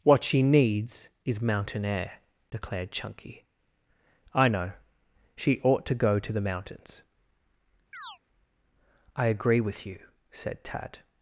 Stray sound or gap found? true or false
true